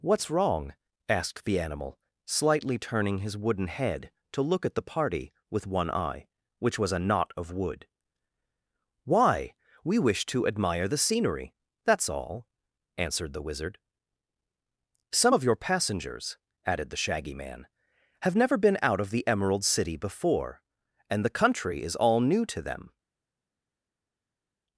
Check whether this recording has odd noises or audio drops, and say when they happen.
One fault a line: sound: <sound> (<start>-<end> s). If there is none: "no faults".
no faults